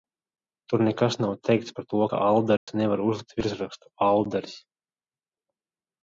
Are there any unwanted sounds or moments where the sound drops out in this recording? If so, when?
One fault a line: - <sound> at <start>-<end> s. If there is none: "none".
- dropout at 2.6-2.7 s